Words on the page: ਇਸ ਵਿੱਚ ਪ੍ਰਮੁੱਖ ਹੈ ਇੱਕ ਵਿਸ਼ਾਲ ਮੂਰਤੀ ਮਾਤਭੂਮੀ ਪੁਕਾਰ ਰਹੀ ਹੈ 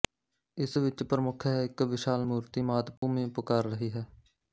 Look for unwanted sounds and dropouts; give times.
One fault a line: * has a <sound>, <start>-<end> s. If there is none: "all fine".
* has a dropout, 3.0-3.0 s